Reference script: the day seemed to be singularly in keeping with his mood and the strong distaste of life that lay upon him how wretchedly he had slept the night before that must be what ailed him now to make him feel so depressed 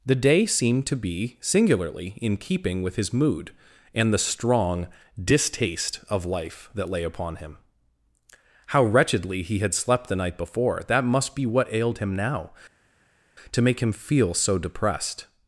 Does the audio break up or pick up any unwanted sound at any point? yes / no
no